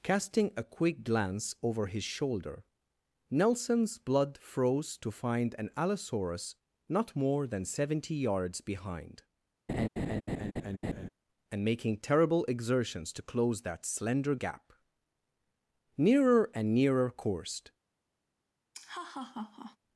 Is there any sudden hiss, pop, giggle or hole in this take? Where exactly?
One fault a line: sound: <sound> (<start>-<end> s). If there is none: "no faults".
sound: laugh (9.7-11.1 s)
sound: laugh (18.7-19.8 s)